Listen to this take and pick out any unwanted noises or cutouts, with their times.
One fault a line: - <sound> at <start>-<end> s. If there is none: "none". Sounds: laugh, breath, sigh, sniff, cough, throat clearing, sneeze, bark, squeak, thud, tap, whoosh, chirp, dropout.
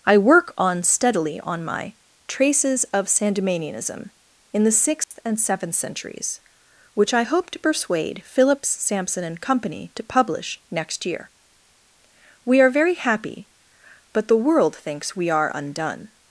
- dropout at 5.0-5.1 s